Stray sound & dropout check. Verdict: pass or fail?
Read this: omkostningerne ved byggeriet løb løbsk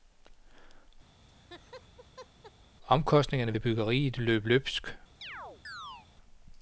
fail